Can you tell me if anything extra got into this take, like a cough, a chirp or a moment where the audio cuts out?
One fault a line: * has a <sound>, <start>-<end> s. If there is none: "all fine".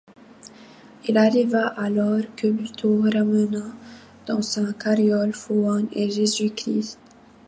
all fine